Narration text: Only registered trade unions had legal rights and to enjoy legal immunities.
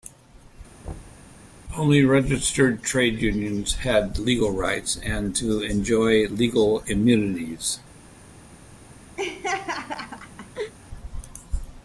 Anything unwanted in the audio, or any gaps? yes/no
yes